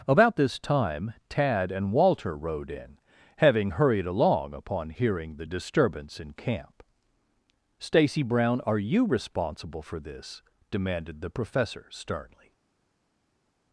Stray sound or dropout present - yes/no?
no